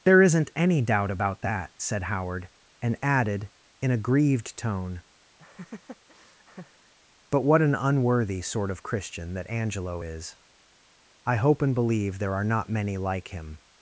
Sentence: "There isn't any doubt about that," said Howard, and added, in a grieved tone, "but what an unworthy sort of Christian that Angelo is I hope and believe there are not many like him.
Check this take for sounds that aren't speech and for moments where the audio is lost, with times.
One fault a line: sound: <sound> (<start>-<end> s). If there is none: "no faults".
sound: laugh (5.4-6.9 s)